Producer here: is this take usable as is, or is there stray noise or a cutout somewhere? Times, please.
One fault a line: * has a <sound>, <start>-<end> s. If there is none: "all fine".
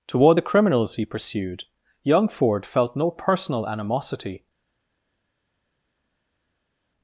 all fine